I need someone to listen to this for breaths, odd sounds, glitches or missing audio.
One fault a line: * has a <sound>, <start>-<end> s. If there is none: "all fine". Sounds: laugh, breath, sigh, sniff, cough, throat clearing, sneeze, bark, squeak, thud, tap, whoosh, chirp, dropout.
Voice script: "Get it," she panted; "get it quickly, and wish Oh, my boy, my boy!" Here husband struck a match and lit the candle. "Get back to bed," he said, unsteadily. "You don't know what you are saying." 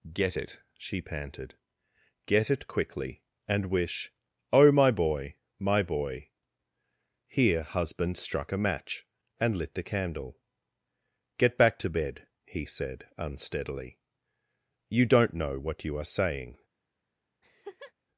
* has a laugh, 17.4-17.9 s